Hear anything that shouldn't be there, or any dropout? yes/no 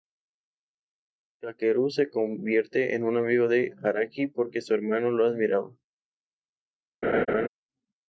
yes